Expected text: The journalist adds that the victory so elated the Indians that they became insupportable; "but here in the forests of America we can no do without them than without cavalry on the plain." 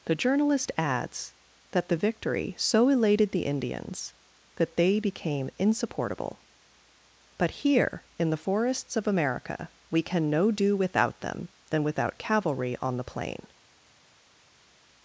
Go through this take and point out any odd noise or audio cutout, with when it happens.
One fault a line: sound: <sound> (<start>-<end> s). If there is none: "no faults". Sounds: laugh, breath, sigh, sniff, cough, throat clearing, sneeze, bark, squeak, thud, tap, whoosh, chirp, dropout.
no faults